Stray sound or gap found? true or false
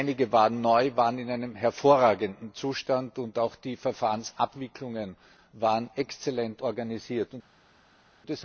false